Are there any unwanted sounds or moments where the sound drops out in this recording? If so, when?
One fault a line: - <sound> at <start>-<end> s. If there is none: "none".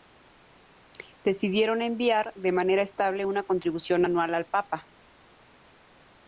none